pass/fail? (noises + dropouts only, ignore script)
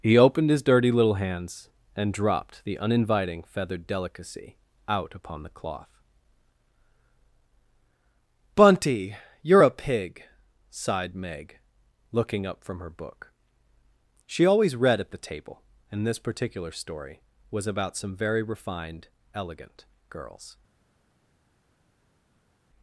pass